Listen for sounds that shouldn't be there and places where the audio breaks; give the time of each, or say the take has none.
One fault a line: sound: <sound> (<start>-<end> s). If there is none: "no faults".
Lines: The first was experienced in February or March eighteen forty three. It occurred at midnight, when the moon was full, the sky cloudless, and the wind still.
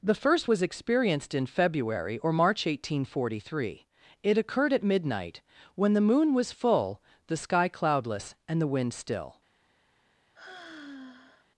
sound: sigh (10.3-11.5 s)